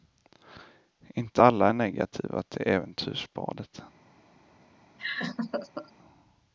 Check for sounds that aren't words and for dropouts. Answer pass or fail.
fail